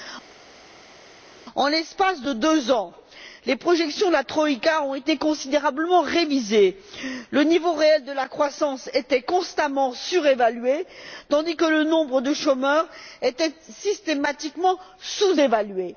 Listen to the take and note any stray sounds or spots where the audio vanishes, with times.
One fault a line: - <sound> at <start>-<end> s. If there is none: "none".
none